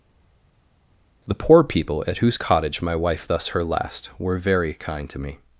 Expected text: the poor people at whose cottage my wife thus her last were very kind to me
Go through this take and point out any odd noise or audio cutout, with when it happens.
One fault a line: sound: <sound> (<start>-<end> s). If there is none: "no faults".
no faults